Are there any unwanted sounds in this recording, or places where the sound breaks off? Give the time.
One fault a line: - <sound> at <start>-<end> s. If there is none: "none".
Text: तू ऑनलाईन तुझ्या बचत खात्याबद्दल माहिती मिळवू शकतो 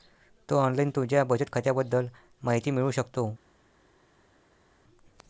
none